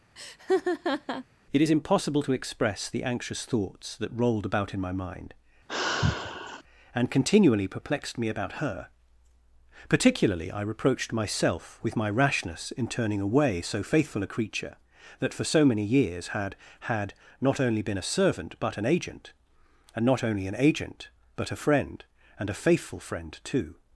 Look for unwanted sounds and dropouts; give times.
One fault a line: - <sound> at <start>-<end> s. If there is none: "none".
- laugh at 0.2-1.2 s
- sigh at 5.7-6.6 s